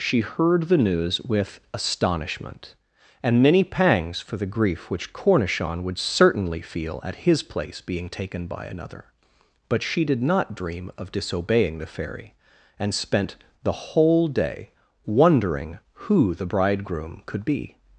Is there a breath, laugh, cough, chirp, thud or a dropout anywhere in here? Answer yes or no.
no